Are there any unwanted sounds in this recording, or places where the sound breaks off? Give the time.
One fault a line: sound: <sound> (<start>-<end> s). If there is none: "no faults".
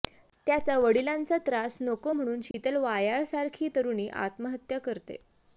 sound: dropout (2.5-2.5 s)